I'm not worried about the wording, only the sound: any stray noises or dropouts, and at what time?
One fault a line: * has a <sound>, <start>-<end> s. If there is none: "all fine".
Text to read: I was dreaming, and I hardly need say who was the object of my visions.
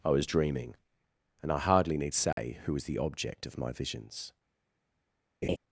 * has a dropout, 2.3-2.4 s
* has a laugh, 5.4-5.6 s